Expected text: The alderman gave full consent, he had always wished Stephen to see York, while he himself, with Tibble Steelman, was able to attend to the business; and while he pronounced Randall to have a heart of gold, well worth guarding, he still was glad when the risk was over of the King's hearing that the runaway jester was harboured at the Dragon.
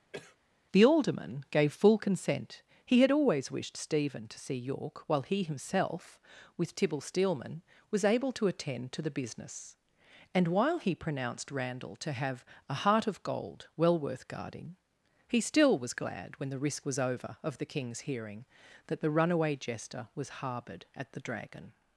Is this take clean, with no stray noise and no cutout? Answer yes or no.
no